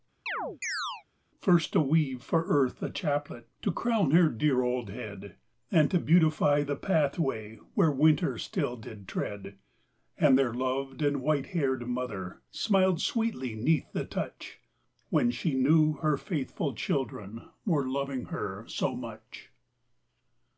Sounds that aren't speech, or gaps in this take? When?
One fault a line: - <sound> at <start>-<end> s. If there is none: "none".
- chirp at 0.3-1.0 s